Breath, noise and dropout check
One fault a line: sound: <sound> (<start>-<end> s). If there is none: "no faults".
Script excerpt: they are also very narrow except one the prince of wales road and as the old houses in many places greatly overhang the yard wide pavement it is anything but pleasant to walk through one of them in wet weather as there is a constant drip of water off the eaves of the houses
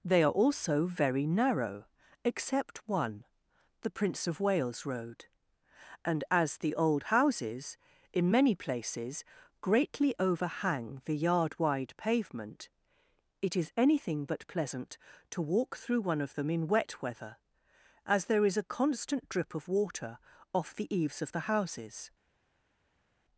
no faults